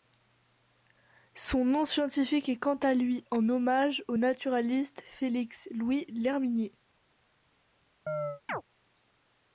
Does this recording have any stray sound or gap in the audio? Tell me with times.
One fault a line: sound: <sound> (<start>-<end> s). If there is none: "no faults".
sound: chirp (8.1-8.6 s)